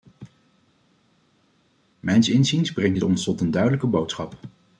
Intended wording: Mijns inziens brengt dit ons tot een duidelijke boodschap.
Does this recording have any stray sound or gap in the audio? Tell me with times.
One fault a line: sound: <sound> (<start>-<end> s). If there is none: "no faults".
no faults